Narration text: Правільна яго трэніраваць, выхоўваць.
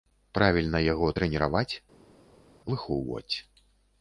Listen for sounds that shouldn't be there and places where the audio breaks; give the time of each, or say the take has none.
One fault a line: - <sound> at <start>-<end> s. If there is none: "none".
none